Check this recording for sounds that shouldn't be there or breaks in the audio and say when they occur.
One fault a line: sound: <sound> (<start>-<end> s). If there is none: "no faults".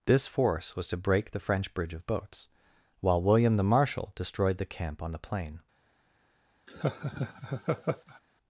sound: laugh (6.7-8.2 s)